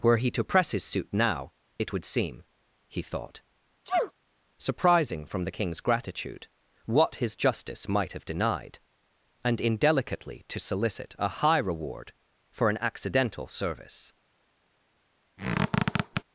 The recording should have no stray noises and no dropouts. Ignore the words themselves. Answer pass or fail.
fail